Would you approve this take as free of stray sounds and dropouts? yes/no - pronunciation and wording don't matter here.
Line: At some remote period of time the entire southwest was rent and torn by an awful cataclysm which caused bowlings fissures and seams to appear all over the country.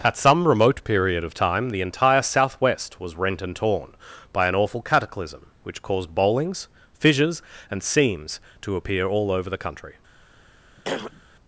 no